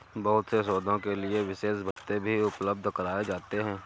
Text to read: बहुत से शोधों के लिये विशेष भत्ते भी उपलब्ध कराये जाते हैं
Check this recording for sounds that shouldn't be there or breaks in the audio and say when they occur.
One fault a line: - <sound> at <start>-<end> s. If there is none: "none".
- dropout at 1.9-2.0 s